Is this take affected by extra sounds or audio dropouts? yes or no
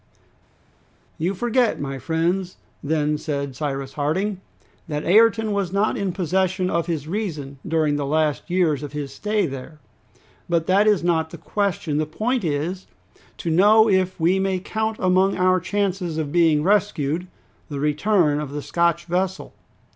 no